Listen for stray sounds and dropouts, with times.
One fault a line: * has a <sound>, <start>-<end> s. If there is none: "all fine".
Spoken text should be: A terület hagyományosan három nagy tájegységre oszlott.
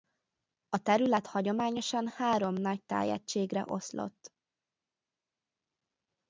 all fine